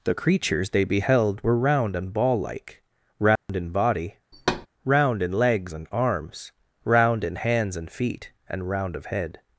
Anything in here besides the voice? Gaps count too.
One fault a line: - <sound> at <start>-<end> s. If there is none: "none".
- dropout at 3.4-3.5 s
- thud at 4.3-4.7 s